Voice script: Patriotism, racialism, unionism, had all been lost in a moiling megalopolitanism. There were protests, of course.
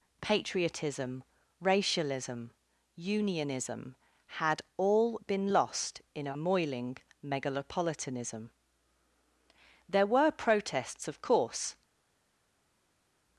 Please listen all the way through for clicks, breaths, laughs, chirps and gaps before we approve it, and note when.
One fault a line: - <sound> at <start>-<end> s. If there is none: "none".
none